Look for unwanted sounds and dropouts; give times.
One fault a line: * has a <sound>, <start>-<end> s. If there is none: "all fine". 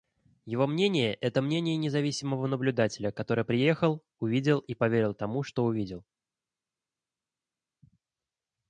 all fine